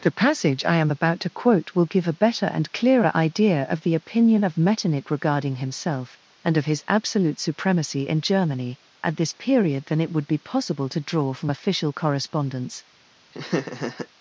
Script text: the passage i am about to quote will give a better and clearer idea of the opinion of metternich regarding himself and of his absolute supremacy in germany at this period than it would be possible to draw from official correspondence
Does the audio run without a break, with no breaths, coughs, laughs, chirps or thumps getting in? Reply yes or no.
no